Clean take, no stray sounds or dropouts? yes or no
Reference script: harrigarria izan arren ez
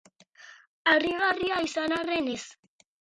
yes